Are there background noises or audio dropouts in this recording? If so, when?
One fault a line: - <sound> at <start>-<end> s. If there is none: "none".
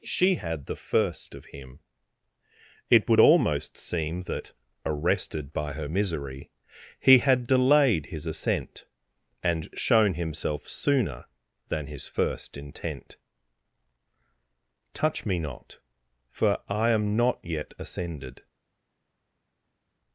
none